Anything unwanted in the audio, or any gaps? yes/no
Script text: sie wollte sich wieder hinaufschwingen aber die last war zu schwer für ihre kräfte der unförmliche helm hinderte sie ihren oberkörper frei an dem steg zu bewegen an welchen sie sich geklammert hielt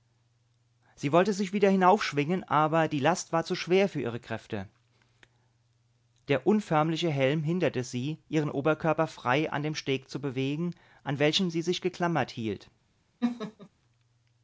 yes